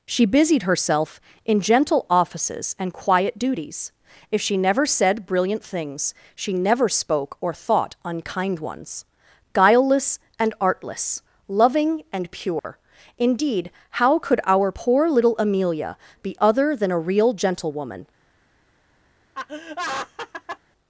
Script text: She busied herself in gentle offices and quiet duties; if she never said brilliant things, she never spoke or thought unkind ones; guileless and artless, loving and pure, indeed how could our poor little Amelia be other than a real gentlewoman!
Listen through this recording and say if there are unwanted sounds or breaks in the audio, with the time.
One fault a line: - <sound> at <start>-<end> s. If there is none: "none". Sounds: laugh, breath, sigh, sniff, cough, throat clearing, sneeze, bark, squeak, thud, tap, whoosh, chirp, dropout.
- dropout at 12.6-12.6 s
- laugh at 19.3-20.6 s